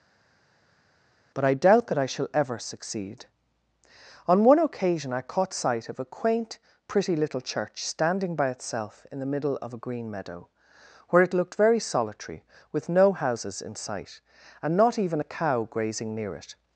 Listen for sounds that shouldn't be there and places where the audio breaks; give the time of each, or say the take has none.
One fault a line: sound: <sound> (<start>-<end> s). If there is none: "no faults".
no faults